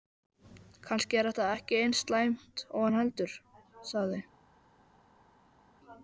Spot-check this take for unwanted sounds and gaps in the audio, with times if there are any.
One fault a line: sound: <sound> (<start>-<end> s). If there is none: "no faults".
no faults